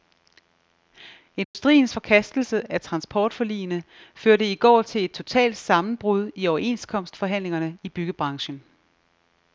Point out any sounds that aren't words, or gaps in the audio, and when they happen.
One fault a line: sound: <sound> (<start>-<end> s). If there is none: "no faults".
sound: dropout (1.4-1.5 s)